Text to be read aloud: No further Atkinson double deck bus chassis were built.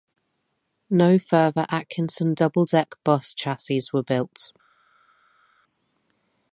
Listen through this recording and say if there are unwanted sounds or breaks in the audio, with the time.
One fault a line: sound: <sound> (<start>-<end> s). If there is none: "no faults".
no faults